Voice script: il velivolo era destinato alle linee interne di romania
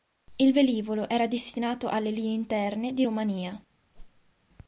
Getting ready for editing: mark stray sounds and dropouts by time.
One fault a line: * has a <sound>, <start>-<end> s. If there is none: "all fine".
* has a whoosh, 3.9-4.3 s